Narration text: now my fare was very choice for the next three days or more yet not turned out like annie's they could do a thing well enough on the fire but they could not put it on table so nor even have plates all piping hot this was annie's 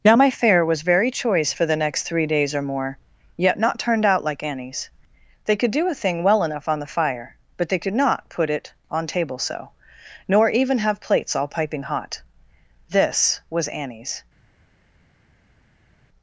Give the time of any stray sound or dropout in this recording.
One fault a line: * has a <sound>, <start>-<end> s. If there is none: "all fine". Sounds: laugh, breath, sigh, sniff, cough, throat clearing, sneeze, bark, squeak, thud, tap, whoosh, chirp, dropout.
all fine